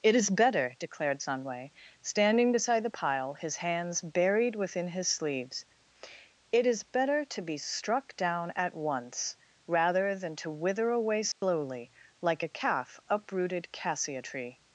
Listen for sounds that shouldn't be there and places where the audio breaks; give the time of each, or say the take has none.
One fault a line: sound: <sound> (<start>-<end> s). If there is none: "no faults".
sound: dropout (11.3-11.4 s)